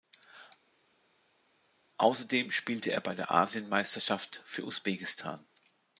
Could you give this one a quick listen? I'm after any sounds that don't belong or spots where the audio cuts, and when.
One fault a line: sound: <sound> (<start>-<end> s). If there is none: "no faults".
no faults